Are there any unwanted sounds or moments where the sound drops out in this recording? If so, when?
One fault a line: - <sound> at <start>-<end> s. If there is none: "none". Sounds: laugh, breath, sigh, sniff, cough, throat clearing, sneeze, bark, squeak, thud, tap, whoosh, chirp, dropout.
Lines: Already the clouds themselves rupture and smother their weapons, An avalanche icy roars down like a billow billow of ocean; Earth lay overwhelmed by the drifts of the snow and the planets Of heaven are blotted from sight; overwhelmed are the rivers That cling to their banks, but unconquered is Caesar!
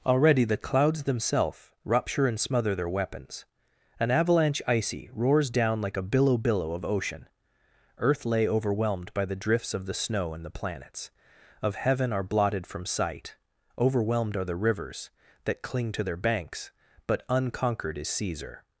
none